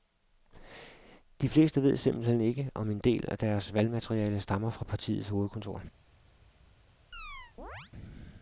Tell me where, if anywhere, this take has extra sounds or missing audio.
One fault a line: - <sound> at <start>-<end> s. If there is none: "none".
- chirp at 7.1-7.9 s